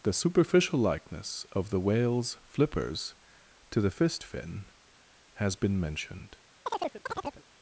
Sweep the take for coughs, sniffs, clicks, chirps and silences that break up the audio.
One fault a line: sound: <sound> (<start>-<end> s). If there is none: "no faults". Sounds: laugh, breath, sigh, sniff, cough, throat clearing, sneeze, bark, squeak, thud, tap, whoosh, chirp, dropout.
sound: chirp (6.7-7.4 s)